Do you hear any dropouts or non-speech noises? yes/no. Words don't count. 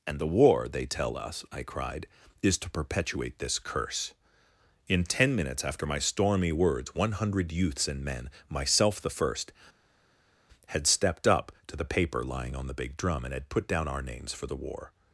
no